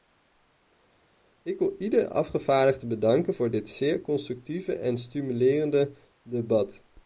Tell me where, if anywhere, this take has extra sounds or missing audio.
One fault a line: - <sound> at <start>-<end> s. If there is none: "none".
none